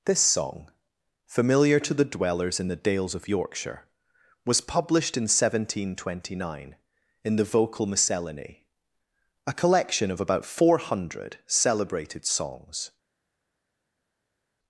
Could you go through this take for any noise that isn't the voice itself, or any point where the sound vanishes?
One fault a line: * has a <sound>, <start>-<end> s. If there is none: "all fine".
all fine